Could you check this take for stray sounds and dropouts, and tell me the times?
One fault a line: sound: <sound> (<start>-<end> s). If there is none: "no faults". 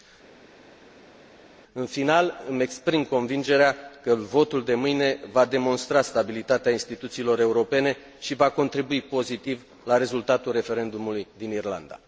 no faults